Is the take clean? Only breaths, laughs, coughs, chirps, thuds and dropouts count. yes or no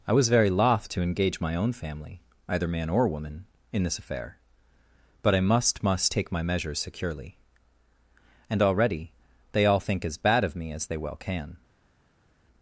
yes